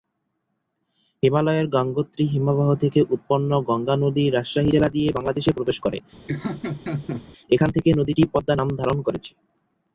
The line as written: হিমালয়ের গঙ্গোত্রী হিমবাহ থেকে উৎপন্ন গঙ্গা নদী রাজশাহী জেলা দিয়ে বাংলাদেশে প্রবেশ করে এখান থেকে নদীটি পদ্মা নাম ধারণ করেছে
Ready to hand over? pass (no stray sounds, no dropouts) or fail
fail